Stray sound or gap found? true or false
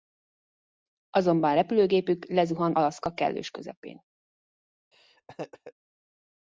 true